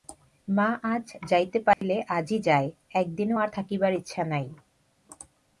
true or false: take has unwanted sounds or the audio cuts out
true